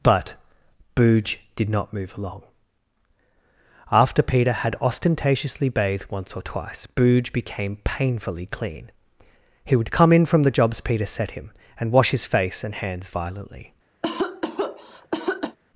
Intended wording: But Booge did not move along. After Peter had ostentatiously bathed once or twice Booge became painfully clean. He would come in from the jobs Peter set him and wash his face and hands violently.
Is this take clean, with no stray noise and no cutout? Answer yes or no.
no